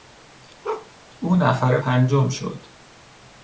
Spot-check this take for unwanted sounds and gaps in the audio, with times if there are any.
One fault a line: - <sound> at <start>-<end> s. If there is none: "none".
- bark at 0.6-0.9 s